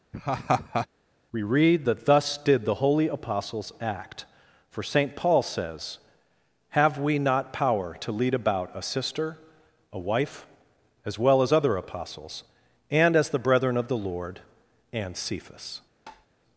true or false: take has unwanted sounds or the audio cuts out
true